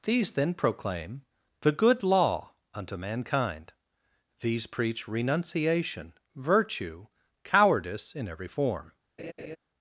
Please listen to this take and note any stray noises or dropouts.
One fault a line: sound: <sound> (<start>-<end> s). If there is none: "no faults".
sound: laugh (9.2-9.6 s)